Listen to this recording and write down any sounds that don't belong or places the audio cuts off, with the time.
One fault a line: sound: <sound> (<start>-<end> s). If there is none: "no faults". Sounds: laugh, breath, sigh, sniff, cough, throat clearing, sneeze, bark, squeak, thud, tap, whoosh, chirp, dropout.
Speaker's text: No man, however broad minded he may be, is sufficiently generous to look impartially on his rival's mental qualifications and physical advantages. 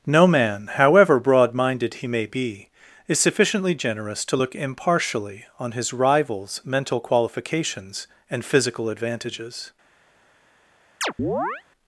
sound: chirp (11.0-11.6 s)